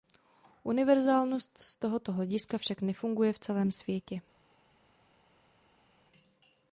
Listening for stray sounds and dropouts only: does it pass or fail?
pass